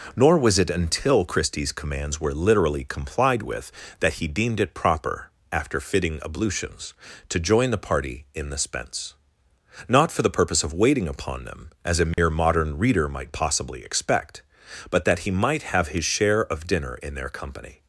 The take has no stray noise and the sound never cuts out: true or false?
false